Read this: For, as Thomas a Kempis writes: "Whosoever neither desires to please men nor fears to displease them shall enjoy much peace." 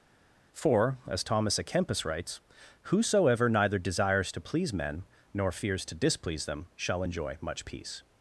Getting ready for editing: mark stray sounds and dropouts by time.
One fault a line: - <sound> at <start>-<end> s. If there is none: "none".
none